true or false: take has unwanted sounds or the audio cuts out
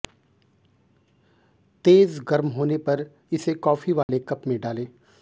true